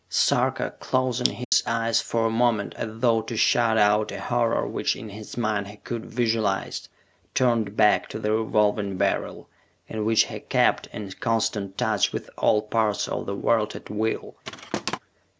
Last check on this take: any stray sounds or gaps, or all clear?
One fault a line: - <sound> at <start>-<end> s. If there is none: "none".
- dropout at 1.4-1.5 s
- thud at 14.4-15.0 s